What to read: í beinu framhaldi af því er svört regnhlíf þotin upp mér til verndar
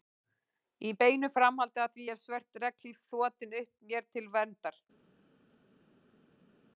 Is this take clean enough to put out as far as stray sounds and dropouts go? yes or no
yes